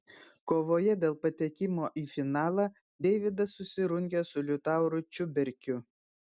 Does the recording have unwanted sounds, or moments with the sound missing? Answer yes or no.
no